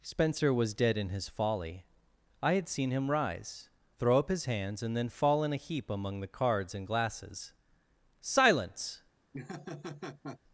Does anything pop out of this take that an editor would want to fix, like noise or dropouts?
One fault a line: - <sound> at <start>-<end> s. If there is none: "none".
- laugh at 9.3-10.4 s